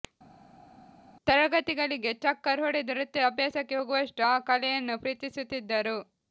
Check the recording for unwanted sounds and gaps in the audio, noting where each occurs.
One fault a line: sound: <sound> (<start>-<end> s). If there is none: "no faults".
no faults